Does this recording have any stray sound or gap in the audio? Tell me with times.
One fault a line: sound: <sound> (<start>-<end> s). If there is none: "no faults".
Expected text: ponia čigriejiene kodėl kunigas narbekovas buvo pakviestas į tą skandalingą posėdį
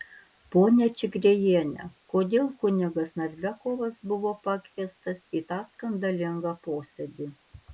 no faults